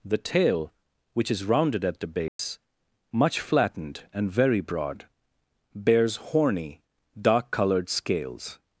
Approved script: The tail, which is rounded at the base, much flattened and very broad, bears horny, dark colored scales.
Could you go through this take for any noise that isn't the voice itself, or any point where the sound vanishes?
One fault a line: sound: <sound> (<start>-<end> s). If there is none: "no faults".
sound: dropout (2.3-2.4 s)